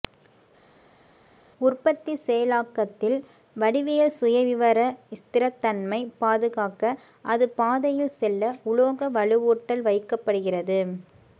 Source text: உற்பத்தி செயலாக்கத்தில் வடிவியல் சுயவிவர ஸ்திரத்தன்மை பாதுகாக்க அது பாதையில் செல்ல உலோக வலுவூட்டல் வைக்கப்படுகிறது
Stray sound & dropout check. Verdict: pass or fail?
pass